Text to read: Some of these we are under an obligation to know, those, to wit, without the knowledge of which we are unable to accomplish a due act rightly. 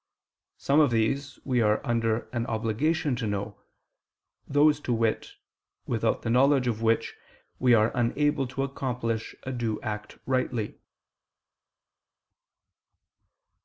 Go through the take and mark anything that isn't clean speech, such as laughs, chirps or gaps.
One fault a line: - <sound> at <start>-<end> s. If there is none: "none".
none